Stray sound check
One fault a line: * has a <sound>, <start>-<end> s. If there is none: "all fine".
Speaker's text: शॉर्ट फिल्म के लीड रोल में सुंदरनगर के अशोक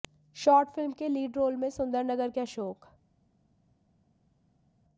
all fine